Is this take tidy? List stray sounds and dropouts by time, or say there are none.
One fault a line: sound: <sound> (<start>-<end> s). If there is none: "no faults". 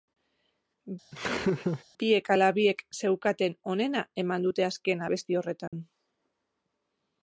sound: laugh (1.1-1.8 s)
sound: dropout (5.7-5.7 s)